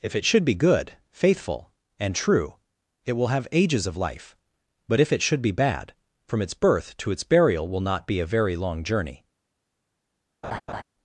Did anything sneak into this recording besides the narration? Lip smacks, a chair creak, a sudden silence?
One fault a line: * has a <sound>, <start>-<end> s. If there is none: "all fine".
* has a laugh, 10.4-10.8 s